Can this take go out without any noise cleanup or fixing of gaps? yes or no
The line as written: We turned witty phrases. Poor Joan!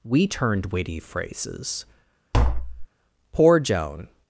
no